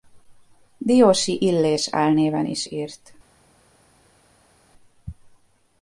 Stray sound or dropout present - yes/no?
no